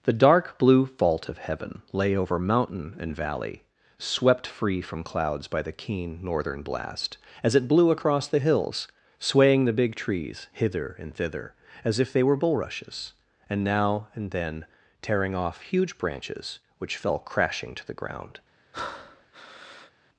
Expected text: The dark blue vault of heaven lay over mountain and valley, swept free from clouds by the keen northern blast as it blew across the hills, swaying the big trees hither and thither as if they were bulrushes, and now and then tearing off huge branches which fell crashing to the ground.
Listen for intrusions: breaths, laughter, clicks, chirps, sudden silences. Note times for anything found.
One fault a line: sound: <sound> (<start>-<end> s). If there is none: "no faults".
sound: breath (18.7-19.9 s)